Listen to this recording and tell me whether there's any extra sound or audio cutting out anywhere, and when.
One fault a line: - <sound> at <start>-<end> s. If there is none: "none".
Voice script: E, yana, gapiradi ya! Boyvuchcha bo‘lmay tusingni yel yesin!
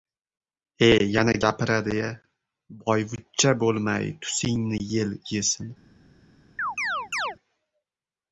- chirp at 6.6-7.4 s